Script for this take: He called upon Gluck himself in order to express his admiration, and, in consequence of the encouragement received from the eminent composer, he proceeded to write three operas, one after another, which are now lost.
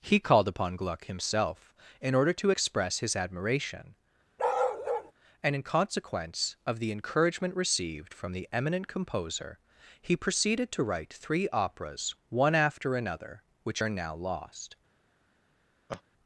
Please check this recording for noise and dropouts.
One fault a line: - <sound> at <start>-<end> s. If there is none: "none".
- bark at 4.4-5.1 s
- laugh at 15.9-16.0 s